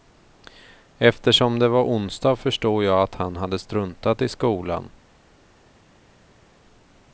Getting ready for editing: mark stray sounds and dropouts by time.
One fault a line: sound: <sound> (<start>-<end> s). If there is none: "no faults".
no faults